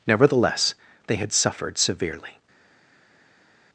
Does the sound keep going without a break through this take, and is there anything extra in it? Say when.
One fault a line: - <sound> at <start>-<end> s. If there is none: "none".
none